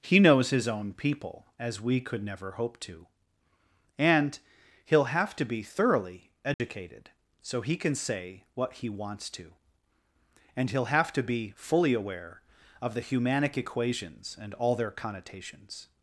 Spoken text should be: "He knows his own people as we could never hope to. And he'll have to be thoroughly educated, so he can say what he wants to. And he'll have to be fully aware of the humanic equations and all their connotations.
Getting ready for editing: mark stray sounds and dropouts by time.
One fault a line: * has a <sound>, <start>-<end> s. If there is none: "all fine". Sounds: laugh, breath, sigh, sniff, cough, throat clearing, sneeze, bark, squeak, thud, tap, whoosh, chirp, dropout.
* has a dropout, 6.5-6.6 s